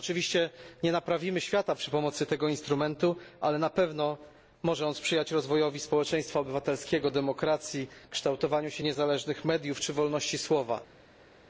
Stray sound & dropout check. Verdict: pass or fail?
pass